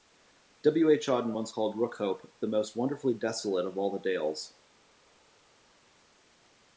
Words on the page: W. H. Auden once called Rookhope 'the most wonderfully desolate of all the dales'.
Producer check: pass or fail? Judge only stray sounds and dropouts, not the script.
pass